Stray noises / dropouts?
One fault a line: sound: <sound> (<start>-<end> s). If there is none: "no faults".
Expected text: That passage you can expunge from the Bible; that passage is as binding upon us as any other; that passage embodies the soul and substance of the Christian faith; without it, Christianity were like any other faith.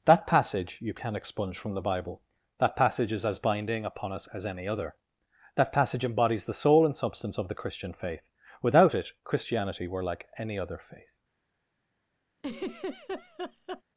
sound: laugh (12.4-13.8 s)